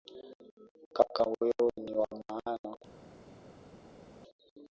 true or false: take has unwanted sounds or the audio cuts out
false